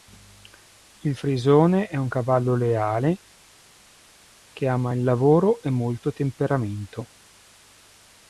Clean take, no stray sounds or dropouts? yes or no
yes